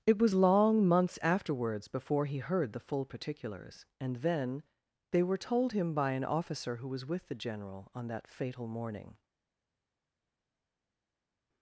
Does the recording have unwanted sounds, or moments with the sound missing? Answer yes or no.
no